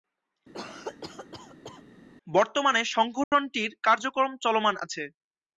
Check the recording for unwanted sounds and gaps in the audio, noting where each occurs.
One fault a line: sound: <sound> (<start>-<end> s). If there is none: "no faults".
sound: cough (0.5-1.8 s)
sound: dropout (3.2-3.3 s)